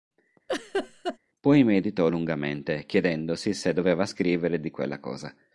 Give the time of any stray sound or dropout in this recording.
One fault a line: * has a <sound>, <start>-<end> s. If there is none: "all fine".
* has a laugh, 0.5-1.2 s